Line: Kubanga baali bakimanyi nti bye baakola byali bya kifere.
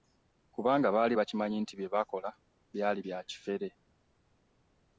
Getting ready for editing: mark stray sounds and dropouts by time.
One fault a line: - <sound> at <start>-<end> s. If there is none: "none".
none